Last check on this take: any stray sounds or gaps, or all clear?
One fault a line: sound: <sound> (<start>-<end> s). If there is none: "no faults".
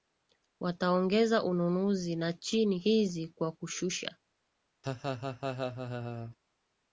sound: laugh (4.8-6.4 s)